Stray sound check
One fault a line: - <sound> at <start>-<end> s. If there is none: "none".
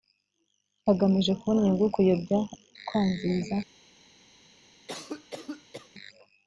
- cough at 4.9-5.9 s